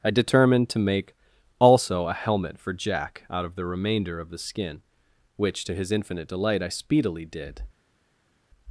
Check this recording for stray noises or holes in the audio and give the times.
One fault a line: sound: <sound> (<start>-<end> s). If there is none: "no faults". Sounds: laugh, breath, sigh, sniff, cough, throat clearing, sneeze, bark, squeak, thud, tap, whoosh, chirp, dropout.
no faults